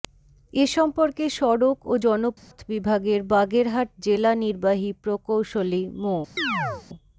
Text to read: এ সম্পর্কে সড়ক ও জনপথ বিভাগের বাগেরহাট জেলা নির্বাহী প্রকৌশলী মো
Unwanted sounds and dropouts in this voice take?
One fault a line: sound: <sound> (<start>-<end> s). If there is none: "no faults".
sound: dropout (2.4-2.5 s)
sound: chirp (6.4-6.9 s)